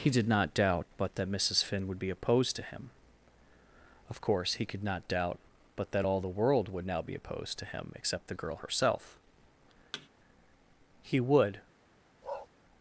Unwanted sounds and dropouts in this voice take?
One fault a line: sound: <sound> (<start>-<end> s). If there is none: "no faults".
sound: thud (9.9-10.1 s)
sound: bark (12.2-12.5 s)